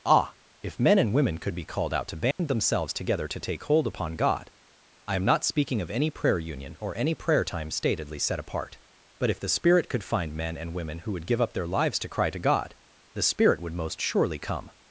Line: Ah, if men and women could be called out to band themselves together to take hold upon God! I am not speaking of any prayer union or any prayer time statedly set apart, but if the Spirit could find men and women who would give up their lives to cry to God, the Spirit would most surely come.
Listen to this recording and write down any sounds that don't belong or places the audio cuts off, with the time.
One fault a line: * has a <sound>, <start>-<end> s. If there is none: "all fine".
* has a dropout, 2.3-2.4 s